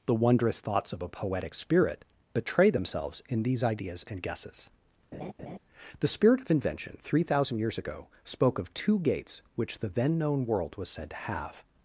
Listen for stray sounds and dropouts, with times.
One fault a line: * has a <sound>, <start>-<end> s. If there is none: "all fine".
* has a laugh, 5.1-5.6 s